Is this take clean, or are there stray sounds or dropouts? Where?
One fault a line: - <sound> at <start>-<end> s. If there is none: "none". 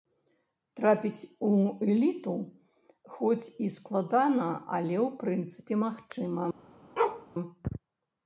- bark at 7.0-7.3 s